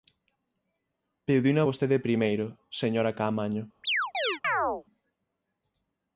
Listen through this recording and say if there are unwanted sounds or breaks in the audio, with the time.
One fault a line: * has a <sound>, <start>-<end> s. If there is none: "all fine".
* has a chirp, 3.8-4.8 s